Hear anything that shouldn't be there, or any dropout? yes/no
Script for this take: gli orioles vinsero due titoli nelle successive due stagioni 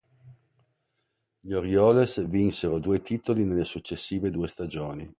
no